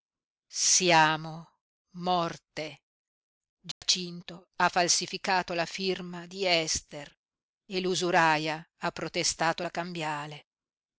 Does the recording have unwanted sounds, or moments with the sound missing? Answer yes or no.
yes